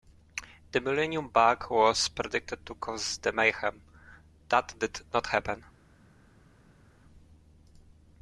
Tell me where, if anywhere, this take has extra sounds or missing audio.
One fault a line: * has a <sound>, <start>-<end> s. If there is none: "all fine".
all fine